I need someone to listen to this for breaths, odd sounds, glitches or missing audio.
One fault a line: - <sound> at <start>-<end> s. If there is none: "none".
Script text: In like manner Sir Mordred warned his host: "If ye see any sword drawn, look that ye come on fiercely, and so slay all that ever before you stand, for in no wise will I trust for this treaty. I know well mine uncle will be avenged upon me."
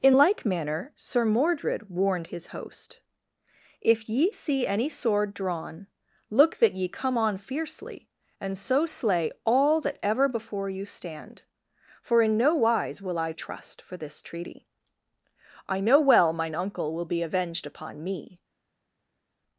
none